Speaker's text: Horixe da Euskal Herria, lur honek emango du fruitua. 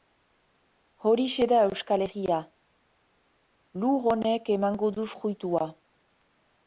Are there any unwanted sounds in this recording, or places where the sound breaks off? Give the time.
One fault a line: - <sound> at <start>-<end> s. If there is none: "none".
none